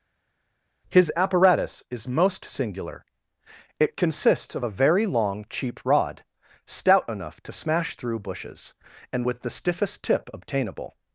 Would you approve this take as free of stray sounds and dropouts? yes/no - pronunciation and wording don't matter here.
yes